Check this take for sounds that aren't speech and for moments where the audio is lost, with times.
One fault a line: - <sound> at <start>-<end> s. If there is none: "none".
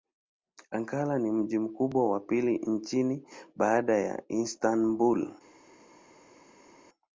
none